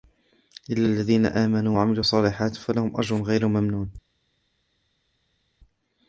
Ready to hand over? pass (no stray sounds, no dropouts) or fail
pass